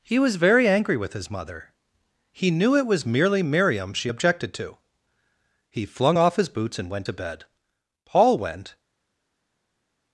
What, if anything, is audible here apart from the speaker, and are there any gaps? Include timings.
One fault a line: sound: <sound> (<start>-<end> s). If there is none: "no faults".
no faults